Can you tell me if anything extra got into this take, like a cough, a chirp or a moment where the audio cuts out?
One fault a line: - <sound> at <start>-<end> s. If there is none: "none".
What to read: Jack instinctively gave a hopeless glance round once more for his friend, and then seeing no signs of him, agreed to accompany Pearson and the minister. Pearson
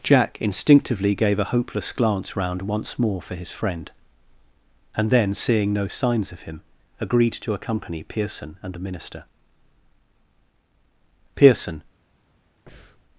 - breath at 12.7-13.0 s